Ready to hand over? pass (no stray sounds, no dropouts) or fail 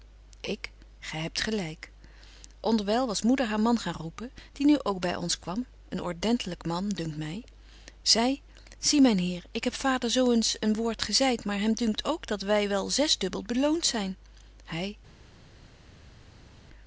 pass